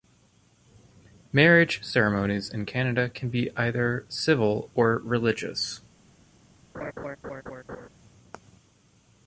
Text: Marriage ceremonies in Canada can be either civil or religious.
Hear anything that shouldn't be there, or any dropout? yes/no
yes